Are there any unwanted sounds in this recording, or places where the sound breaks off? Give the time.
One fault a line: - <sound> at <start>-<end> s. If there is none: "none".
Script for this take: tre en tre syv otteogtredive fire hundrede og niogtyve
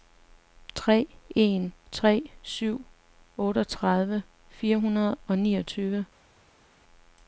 none